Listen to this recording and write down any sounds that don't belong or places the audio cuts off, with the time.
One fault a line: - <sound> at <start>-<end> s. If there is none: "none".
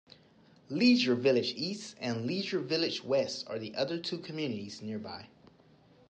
none